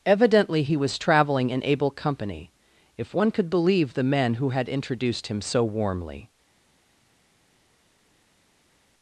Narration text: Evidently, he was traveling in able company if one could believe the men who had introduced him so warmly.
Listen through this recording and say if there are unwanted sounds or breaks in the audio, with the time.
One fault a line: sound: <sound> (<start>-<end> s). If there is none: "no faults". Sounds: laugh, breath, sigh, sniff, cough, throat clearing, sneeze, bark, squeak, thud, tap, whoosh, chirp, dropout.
no faults